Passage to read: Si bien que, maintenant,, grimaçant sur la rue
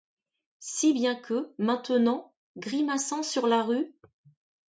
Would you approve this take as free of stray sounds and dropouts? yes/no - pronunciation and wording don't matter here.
yes